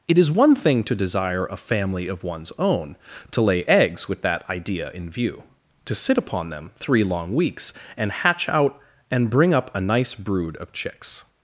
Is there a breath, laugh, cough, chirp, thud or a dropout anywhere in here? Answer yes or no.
no